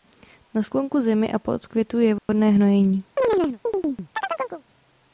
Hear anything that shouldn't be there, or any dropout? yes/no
yes